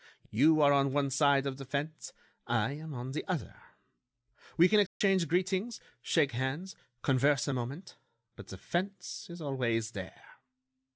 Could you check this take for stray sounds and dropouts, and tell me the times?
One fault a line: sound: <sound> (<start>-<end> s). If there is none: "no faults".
sound: dropout (4.9-5.0 s)